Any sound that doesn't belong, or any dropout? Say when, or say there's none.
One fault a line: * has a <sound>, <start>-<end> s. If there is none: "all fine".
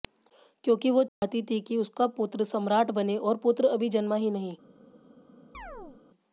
* has a dropout, 1.1-1.2 s
* has a chirp, 5.5-6.0 s